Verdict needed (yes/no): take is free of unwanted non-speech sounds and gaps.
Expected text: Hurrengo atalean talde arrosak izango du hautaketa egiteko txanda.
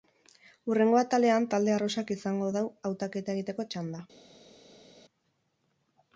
yes